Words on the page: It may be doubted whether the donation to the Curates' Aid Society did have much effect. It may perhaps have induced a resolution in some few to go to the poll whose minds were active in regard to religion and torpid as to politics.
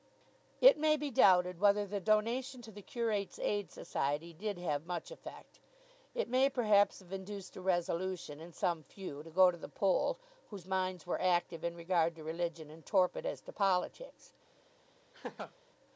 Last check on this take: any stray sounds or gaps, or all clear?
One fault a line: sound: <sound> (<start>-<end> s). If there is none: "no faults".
sound: laugh (15.1-15.5 s)